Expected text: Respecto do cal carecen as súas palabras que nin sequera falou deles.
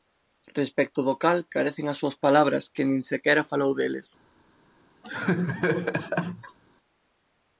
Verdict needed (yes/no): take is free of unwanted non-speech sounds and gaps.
no